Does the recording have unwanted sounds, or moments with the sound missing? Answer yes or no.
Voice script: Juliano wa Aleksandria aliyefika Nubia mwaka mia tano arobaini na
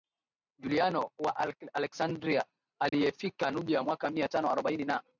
yes